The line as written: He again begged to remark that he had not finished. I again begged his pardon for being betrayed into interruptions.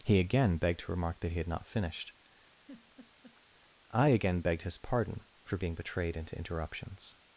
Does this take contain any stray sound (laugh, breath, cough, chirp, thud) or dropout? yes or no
yes